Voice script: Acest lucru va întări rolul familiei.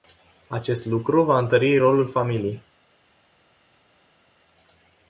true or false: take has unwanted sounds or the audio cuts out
false